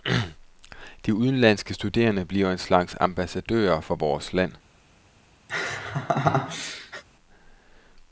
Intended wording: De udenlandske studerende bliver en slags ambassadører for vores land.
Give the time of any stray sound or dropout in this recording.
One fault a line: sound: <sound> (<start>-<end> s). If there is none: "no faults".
sound: laugh (5.5-7.0 s)